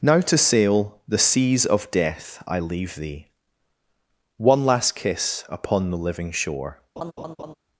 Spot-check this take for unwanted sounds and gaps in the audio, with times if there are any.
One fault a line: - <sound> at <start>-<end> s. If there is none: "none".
- laugh at 7.0-7.5 s